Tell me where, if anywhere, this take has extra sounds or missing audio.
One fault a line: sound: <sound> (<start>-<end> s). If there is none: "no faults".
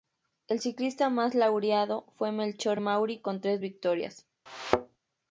sound: thud (4.5-5.0 s)